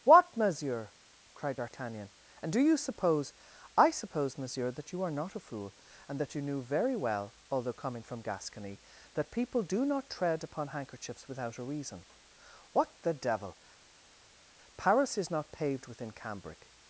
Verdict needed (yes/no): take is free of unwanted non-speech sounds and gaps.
yes